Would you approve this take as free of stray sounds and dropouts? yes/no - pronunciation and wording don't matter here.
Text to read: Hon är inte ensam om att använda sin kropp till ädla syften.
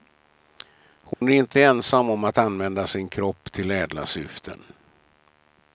no